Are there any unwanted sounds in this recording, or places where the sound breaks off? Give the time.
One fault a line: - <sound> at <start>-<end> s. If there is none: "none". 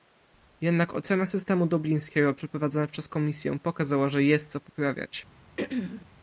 - throat clearing at 5.6-6.1 s